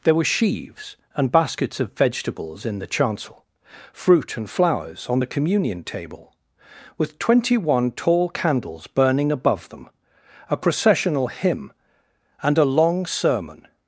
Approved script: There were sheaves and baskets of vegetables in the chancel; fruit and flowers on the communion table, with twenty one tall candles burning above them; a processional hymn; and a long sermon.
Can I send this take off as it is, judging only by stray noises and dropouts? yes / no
yes